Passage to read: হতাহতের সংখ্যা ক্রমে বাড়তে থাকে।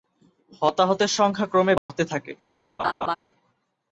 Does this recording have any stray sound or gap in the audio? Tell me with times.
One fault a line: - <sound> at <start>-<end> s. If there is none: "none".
- dropout at 1.8-1.9 s
- laugh at 2.8-3.2 s